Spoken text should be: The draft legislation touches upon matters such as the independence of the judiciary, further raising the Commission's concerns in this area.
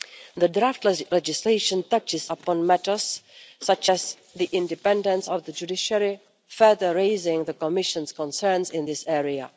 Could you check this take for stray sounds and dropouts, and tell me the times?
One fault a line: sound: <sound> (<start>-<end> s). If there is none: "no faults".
no faults